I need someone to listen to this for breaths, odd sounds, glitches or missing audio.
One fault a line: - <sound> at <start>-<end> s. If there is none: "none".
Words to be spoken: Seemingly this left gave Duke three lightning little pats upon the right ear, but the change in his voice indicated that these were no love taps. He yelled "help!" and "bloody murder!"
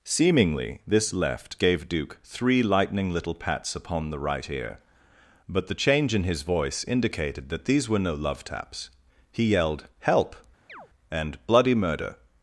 - chirp at 10.7-10.9 s